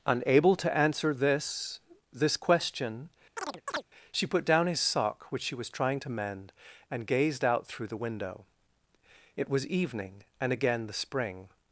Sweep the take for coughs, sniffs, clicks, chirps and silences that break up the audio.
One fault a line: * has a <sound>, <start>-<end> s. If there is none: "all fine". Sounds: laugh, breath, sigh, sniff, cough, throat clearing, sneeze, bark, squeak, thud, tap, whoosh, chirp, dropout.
* has a chirp, 3.4-3.8 s